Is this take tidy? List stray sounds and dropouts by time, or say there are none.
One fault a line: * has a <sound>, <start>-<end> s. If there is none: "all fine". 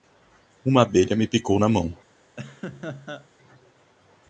* has a laugh, 2.4-3.3 s